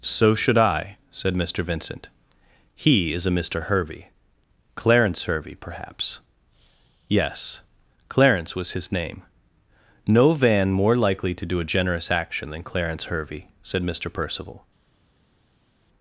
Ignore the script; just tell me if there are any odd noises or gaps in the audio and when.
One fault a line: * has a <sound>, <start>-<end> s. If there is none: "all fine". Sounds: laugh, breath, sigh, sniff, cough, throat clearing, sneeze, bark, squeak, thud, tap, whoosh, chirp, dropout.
all fine